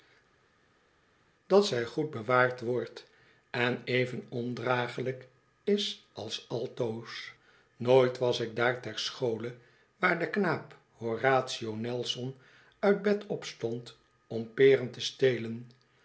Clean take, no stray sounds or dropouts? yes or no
yes